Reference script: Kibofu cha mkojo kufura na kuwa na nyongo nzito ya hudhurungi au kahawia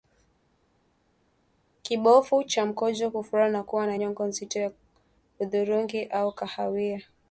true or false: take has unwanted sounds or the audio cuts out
false